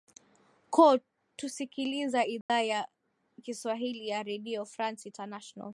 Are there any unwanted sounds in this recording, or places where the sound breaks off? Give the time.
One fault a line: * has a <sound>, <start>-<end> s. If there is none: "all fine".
* has a dropout, 2.4-2.5 s